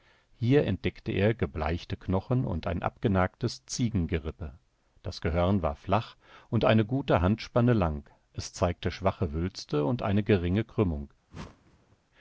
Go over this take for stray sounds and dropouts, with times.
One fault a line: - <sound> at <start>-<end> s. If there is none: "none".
- whoosh at 11.3-12.0 s